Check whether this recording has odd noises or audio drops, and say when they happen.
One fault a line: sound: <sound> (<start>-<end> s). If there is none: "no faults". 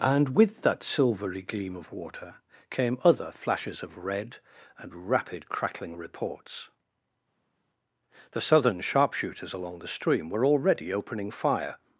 no faults